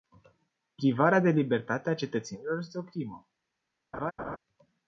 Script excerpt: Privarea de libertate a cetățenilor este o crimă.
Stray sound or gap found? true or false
true